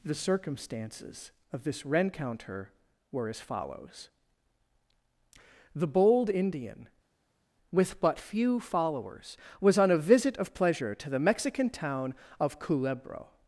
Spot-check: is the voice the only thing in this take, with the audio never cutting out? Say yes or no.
yes